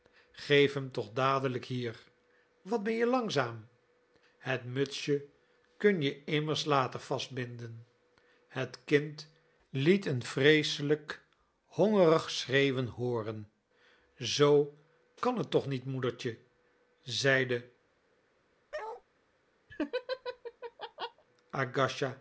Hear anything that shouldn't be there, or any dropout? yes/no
yes